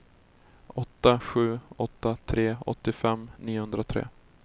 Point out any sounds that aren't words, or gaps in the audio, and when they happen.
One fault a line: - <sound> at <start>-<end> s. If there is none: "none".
none